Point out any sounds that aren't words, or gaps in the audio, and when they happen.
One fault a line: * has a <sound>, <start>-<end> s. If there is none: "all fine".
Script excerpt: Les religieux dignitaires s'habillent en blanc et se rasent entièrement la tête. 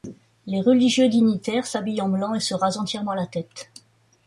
all fine